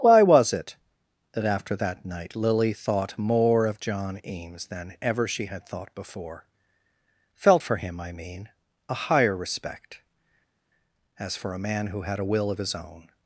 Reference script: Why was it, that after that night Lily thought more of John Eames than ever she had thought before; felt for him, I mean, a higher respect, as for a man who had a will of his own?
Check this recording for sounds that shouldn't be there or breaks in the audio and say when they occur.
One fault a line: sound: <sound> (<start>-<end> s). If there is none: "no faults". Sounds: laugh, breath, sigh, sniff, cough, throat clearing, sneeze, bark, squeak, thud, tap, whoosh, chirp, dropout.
no faults